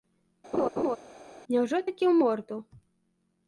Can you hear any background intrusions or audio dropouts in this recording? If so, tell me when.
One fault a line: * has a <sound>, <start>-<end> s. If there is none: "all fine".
* has a laugh, 0.5-1.0 s